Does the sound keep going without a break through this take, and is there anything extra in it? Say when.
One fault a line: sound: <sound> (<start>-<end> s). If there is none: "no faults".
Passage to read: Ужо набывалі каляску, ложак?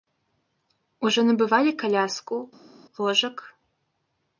no faults